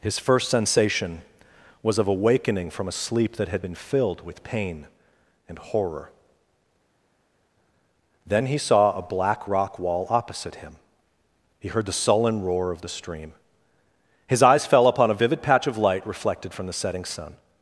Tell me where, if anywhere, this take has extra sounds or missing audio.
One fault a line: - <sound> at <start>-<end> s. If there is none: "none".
none